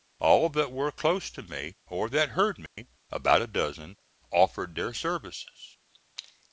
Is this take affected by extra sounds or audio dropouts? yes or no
yes